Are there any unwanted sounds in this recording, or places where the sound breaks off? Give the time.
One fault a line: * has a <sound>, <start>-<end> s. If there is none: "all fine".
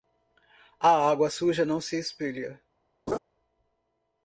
* has a laugh, 3.1-3.2 s